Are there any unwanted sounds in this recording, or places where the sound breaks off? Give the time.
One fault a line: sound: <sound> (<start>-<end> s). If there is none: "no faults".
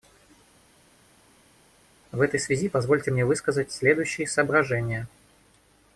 no faults